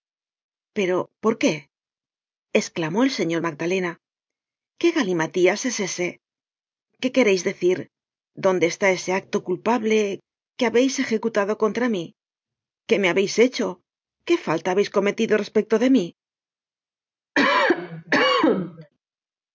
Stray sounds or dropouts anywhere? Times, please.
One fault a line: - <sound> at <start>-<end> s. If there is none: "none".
- cough at 17.4-18.9 s